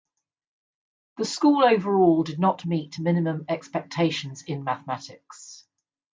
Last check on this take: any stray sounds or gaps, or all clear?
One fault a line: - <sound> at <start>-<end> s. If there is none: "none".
none